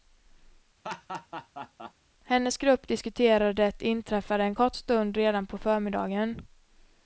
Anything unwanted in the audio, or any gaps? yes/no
yes